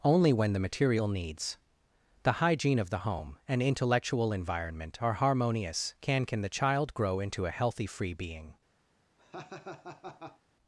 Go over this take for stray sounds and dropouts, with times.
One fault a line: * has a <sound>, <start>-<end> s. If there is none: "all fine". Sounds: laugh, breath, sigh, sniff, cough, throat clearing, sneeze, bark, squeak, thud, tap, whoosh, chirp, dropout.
* has a laugh, 9.2-10.4 s